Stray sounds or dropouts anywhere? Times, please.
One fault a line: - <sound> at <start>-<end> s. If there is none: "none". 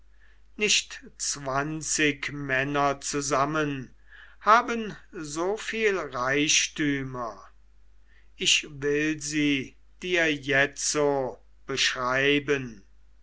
none